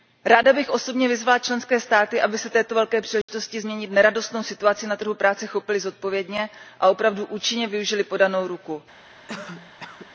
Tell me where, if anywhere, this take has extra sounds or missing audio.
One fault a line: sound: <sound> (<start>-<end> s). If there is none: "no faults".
sound: dropout (3.2-3.3 s)
sound: cough (9.3-10.1 s)